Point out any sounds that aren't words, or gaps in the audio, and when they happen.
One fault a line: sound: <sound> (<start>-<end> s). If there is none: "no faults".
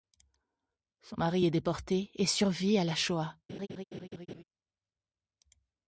sound: laugh (3.5-4.4 s)